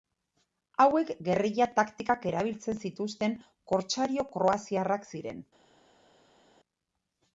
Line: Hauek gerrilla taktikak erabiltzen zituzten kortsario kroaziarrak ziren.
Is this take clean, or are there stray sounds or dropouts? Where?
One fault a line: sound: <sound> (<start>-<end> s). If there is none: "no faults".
no faults